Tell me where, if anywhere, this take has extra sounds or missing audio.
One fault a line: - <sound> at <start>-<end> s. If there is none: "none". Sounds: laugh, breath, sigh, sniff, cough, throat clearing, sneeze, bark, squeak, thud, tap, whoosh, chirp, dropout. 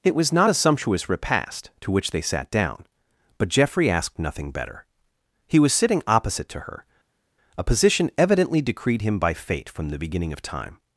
none